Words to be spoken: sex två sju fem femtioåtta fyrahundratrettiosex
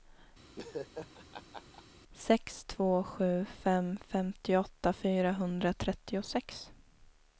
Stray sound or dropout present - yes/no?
yes